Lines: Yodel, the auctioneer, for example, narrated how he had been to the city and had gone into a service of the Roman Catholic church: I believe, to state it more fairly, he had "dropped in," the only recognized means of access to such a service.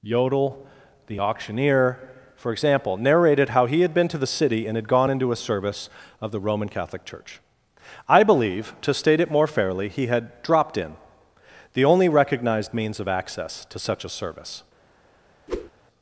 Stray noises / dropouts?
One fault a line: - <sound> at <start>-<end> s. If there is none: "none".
- whoosh at 15.5-15.7 s